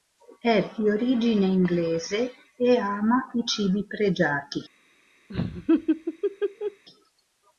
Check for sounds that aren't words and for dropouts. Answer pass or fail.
fail